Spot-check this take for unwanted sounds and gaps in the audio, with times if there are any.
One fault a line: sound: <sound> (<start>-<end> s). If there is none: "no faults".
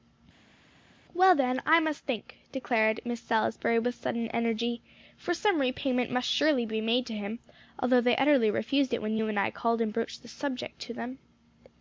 no faults